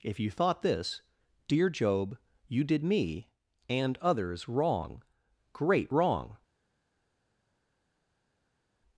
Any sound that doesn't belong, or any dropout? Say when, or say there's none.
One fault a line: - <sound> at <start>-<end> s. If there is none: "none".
none